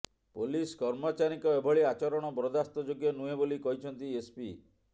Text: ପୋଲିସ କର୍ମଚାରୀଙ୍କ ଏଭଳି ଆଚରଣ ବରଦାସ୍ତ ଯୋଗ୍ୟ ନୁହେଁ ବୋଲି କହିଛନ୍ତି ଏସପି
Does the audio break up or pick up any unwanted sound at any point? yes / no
no